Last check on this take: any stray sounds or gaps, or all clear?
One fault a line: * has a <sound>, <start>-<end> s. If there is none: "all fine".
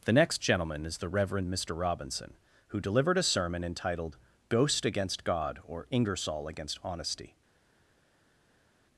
all fine